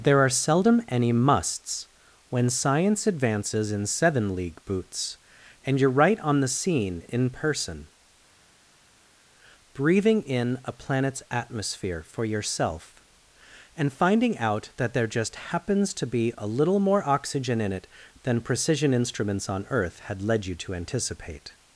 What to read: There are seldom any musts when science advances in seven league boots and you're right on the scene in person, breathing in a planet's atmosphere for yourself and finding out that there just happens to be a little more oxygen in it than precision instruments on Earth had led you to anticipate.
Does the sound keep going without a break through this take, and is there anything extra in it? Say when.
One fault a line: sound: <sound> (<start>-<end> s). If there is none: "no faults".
no faults